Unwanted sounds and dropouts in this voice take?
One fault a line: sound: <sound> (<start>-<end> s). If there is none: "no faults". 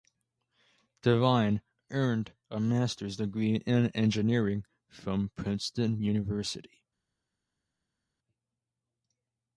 no faults